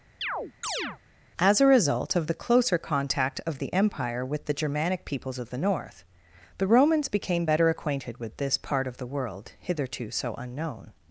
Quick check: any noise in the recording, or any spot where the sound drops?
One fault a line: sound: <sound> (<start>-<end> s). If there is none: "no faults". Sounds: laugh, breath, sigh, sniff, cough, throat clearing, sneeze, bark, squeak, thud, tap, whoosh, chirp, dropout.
sound: chirp (0.2-1.0 s)